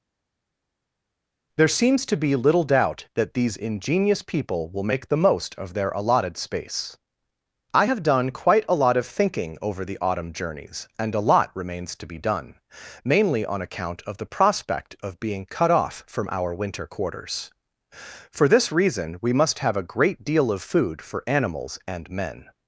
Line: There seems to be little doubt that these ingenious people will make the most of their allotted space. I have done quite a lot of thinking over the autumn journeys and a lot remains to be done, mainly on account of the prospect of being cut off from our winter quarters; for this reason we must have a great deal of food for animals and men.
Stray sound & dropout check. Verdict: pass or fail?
pass